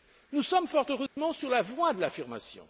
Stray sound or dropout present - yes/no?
yes